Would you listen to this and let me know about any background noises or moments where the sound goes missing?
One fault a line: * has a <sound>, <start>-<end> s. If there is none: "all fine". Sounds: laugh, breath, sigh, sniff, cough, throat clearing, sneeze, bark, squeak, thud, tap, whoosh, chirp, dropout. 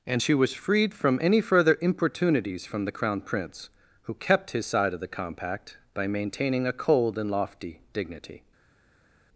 all fine